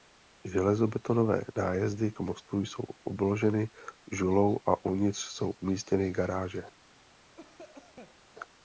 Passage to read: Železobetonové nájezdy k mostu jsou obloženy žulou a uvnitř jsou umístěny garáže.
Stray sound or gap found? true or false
true